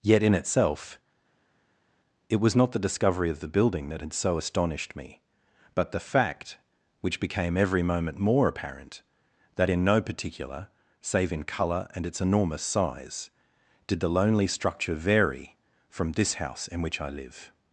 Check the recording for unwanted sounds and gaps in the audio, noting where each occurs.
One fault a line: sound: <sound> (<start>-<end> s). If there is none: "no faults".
no faults